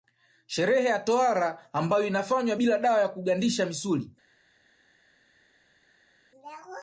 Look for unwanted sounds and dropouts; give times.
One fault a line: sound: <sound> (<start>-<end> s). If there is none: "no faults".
no faults